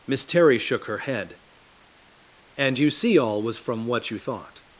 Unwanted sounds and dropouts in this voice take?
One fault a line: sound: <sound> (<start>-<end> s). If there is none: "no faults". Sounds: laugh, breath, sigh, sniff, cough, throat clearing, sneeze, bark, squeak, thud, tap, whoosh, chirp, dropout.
no faults